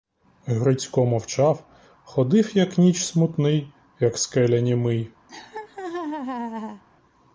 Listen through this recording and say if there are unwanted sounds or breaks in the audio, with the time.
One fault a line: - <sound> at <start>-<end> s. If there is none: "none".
- laugh at 5.3-6.8 s